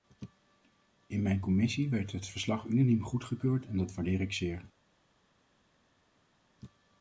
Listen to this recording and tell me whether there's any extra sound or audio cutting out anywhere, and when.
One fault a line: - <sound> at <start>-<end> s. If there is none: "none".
none